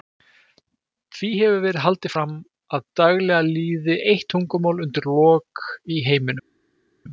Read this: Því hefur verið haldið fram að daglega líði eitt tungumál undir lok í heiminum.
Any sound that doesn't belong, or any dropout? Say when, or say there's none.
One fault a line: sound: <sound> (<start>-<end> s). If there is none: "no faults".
no faults